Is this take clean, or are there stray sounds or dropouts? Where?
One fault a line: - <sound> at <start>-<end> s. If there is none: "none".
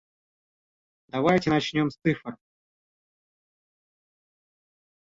none